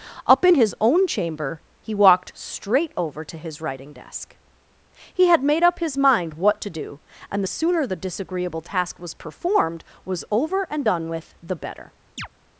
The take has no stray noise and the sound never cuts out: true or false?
false